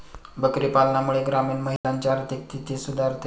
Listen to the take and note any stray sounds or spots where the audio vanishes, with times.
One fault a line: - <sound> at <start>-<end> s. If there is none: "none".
- dropout at 1.8-1.8 s